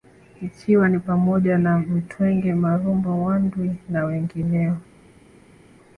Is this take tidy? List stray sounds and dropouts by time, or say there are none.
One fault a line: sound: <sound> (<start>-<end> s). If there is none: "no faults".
no faults